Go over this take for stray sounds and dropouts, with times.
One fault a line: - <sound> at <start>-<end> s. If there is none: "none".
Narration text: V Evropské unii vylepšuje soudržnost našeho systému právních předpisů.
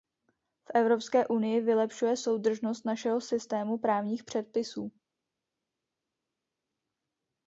none